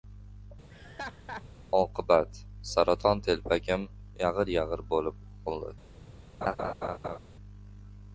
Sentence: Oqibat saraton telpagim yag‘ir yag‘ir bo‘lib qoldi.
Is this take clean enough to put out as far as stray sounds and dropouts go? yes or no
no